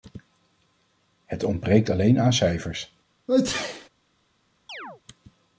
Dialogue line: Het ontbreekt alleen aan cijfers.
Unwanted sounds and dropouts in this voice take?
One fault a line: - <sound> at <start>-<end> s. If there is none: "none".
- sneeze at 3.3-3.9 s
- chirp at 4.7-5.0 s